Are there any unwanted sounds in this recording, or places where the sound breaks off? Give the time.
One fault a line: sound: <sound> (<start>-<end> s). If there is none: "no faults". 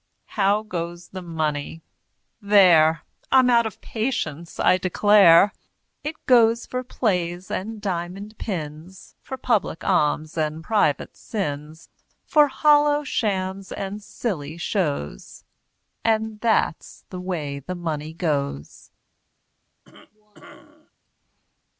sound: cough (19.8-20.9 s)